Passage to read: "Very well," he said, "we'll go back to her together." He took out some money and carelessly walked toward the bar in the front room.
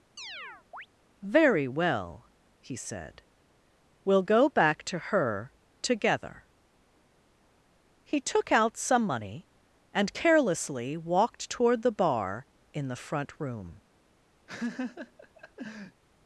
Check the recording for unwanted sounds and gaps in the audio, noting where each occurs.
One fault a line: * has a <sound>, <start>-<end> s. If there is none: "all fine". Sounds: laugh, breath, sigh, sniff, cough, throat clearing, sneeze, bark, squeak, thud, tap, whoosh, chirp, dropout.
* has a chirp, 0.2-0.9 s
* has a laugh, 14.5-16.0 s